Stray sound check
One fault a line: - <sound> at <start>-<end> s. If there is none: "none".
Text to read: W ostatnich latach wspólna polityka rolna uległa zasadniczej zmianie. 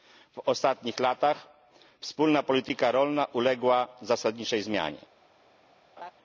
- laugh at 6.0-6.1 s